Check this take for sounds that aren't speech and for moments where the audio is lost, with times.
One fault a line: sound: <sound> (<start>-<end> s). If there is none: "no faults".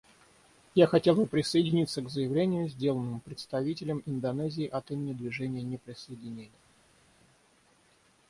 no faults